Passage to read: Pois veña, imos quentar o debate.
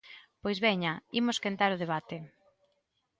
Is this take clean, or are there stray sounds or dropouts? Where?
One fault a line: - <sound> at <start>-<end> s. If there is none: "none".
none